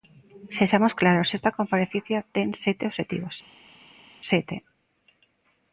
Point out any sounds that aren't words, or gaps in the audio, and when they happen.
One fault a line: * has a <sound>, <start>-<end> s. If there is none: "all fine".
all fine